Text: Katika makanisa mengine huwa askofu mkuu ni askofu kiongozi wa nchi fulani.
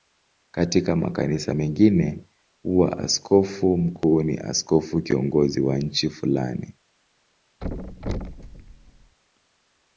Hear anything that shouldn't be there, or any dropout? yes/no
yes